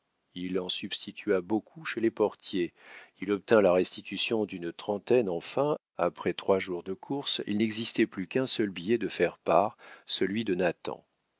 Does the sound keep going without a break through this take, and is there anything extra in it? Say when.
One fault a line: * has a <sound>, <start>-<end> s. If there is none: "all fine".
all fine